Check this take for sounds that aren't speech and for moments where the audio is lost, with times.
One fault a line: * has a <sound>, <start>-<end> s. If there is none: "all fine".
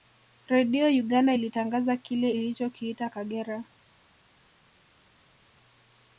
all fine